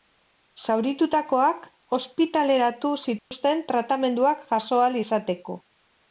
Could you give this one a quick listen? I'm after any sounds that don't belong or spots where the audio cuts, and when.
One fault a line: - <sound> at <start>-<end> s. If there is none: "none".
- dropout at 3.2-3.3 s